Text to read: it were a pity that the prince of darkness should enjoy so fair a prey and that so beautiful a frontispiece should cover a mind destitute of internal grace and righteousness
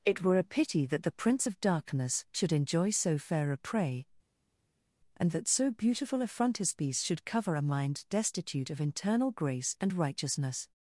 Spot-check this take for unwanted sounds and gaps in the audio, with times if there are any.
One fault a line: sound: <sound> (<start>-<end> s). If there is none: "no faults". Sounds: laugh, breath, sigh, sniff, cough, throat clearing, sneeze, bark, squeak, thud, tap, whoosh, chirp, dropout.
no faults